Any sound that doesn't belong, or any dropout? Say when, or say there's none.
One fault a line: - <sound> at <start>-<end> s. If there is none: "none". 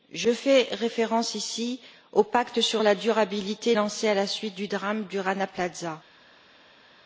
none